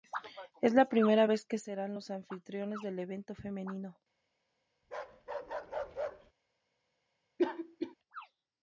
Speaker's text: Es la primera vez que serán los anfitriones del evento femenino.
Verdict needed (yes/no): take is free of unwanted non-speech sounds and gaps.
no